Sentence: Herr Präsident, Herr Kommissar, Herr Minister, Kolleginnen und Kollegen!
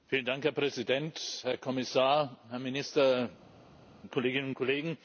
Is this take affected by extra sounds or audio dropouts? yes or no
no